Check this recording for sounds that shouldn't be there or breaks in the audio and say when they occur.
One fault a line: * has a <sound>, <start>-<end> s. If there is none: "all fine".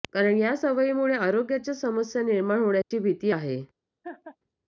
* has a dropout, 2.8-2.9 s
* has a laugh, 4.0-4.4 s